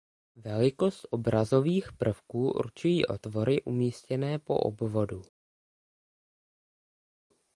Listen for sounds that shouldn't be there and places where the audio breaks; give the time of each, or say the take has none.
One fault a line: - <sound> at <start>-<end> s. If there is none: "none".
none